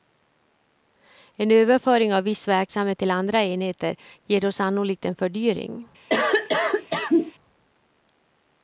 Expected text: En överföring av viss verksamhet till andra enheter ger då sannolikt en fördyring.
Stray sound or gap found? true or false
true